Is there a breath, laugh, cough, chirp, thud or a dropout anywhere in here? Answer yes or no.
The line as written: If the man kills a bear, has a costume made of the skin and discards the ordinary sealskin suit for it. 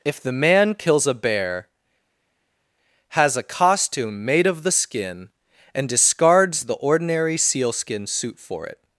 no